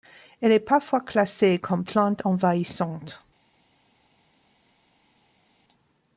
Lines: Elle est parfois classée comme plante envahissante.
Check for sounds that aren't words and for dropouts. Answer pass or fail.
pass